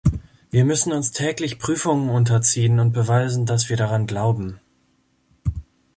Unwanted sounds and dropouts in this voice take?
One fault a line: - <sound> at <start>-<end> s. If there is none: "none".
none